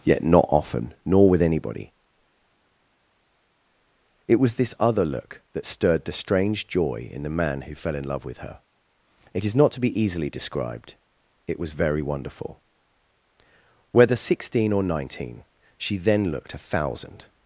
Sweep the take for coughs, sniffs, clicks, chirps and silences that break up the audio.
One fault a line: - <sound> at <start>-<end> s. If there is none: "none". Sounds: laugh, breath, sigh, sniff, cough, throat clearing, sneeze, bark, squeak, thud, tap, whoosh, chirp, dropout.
none